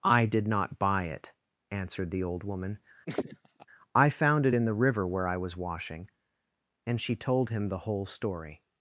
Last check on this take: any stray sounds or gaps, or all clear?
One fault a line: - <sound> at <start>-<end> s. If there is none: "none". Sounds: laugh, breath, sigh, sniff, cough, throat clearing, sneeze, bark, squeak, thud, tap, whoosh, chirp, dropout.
- laugh at 3.1-3.7 s